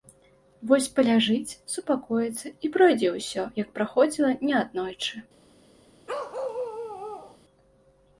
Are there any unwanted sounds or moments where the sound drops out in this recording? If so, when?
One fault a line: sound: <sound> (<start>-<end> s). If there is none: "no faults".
sound: bark (6.1-7.4 s)